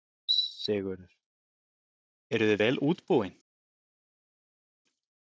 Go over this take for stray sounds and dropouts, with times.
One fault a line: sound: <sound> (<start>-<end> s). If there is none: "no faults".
no faults